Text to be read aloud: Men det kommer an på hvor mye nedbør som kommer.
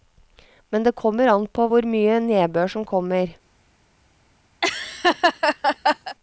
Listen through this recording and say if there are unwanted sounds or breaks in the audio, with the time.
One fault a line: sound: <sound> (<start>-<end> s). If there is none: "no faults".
sound: laugh (4.6-6.2 s)